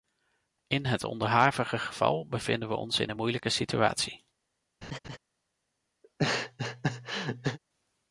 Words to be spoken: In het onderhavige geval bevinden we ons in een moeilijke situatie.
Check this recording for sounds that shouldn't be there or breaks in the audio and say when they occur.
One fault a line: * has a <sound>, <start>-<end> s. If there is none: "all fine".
* has a laugh, 4.8-5.2 s
* has a laugh, 6.0-7.6 s